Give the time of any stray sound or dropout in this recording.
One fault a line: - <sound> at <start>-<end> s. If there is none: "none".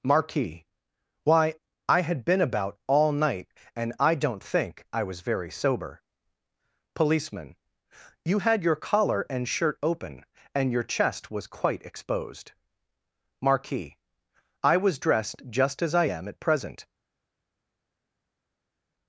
none